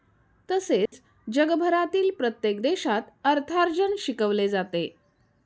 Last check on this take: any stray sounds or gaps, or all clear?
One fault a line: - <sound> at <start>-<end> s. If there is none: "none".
- dropout at 0.9-0.9 s